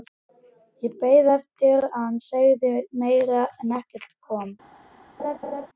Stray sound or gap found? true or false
true